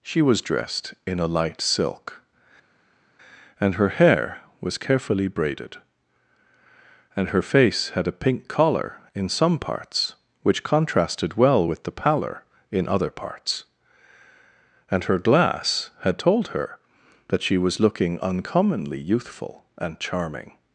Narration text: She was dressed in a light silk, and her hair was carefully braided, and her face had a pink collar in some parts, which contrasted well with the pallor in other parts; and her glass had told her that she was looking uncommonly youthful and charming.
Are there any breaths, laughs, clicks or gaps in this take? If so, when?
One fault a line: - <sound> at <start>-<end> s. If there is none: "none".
none